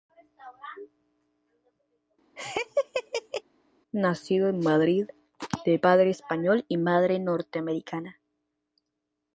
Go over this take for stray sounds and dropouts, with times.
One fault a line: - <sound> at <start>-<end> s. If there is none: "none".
- laugh at 2.4-3.4 s